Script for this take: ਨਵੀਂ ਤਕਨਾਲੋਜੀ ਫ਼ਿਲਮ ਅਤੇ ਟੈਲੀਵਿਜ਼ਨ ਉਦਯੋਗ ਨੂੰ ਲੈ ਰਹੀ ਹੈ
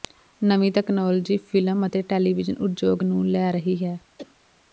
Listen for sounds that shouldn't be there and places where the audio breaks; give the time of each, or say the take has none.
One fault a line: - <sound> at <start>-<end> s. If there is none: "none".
- cough at 4.2-4.4 s